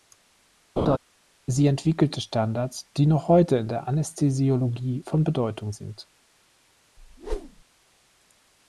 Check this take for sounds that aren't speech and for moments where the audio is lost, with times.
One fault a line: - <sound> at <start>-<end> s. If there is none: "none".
- laugh at 0.8-1.0 s
- whoosh at 7.0-7.6 s